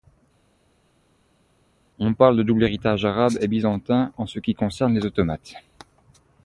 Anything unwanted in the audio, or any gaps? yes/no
no